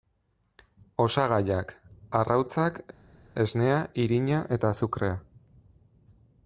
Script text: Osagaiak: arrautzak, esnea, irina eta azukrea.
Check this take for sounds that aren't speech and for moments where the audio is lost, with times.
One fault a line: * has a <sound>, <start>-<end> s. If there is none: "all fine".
all fine